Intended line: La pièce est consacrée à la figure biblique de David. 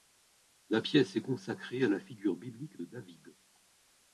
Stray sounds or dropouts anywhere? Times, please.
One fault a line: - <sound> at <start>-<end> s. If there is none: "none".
none